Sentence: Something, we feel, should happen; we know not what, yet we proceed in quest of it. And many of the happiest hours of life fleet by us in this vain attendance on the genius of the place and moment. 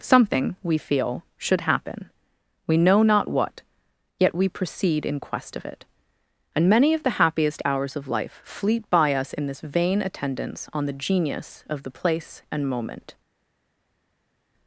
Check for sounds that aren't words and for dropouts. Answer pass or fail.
pass